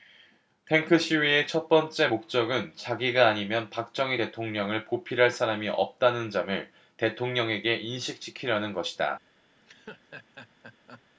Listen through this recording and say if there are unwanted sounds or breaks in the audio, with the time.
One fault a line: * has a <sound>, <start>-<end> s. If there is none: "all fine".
* has a laugh, 9.6-11.0 s